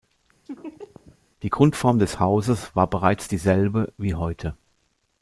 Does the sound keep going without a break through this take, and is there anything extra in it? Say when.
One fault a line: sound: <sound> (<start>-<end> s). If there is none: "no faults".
sound: laugh (0.5-1.2 s)